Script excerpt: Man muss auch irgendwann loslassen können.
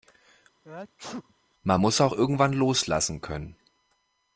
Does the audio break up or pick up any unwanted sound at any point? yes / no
yes